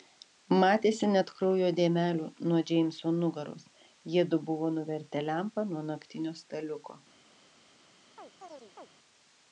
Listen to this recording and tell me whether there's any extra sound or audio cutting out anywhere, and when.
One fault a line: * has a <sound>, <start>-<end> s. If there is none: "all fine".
* has a chirp, 8.2-8.9 s